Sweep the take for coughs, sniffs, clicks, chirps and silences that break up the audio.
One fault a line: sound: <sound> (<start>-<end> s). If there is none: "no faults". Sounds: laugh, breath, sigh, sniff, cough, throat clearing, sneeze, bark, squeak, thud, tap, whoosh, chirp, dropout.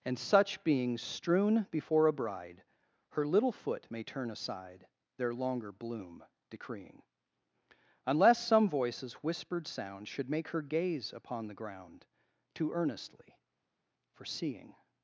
no faults